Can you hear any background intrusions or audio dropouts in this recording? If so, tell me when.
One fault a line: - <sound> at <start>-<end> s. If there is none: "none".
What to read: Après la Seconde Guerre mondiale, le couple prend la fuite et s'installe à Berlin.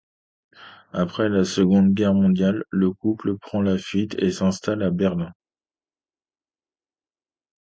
none